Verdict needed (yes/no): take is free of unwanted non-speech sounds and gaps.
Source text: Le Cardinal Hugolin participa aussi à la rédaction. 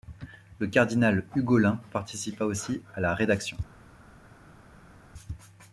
yes